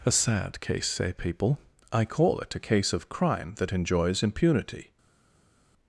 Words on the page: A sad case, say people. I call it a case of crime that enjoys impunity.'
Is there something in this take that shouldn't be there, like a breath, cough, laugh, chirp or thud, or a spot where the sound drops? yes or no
no